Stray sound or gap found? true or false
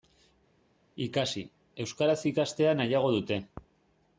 false